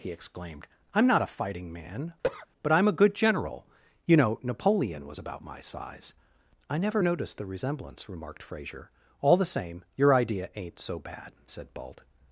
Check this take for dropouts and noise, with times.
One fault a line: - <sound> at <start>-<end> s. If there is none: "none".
- cough at 2.2-2.5 s